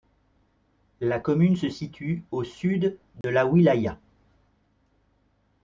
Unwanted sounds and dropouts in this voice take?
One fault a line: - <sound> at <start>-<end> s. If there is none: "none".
- dropout at 3.2-3.2 s